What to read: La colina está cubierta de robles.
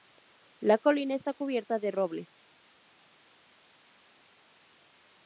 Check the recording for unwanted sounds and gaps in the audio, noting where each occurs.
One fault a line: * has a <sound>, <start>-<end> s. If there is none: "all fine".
all fine